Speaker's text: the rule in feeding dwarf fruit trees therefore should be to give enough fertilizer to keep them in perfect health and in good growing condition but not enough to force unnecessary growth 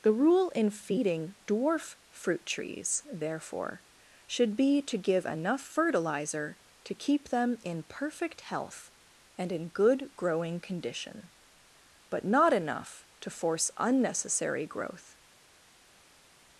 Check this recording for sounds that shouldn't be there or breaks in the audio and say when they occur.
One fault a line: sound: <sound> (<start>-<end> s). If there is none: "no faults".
no faults